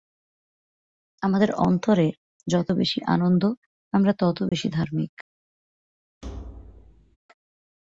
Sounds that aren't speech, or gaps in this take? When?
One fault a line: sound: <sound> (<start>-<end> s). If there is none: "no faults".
sound: dropout (4.5-4.5 s)
sound: thud (6.2-7.2 s)